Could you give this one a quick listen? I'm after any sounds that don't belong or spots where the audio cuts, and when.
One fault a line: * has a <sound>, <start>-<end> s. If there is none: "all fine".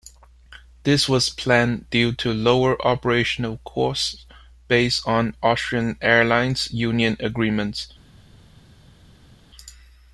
all fine